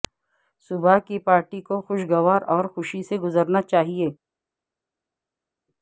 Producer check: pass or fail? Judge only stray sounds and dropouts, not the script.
pass